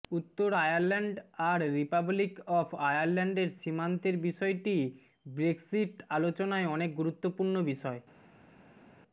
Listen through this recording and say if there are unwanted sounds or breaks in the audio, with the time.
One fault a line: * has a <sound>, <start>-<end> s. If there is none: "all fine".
all fine